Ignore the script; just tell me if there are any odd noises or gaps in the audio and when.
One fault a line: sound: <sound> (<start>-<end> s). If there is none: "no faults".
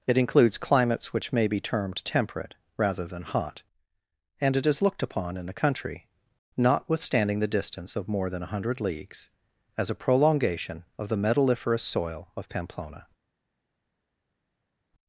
no faults